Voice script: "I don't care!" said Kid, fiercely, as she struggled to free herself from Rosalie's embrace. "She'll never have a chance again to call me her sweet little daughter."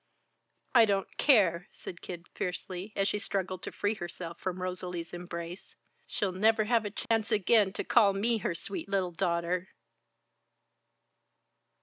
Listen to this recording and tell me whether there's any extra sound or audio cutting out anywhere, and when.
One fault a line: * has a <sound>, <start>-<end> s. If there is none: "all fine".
* has a dropout, 7.1-7.1 s